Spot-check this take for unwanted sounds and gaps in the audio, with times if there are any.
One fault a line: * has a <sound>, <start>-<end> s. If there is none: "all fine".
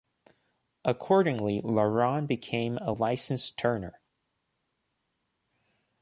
all fine